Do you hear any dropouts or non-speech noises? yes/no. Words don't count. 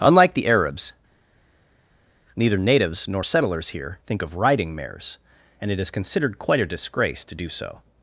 no